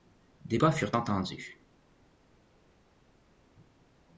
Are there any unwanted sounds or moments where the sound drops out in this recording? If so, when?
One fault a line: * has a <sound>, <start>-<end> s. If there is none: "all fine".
all fine